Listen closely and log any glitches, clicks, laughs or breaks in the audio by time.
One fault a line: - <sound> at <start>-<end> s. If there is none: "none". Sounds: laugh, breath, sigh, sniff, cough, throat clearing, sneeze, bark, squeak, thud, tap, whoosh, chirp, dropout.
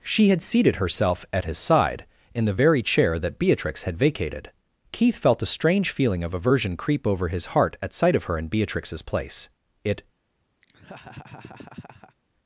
- laugh at 10.6-12.2 s